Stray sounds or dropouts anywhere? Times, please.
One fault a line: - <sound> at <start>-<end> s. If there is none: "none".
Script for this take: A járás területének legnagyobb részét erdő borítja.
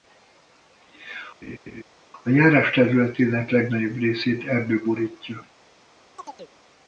- laugh at 1.4-1.8 s
- chirp at 6.2-6.5 s